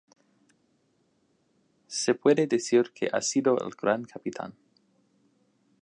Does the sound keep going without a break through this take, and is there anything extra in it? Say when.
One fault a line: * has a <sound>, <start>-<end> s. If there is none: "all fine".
all fine